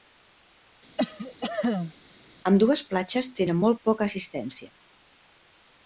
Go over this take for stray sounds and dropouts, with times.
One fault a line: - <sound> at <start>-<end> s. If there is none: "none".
- cough at 1.0-1.9 s